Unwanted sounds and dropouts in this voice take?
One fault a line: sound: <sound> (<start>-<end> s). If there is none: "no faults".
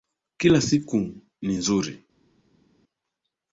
no faults